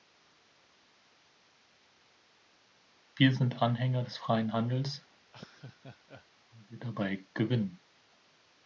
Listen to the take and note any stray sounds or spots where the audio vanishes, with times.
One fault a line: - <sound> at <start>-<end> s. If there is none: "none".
- laugh at 5.3-6.3 s